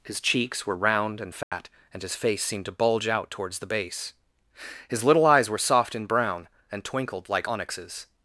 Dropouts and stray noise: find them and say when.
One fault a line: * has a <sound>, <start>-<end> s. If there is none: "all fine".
* has a dropout, 1.4-1.5 s